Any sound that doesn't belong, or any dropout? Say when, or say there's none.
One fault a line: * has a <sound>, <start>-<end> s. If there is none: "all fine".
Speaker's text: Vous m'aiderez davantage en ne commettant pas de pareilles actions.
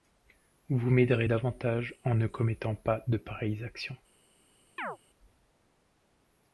* has a chirp, 4.8-5.0 s